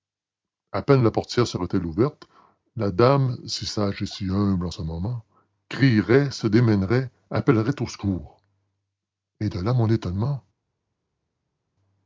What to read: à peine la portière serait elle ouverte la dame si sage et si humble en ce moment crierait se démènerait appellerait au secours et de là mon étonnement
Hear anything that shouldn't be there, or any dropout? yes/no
no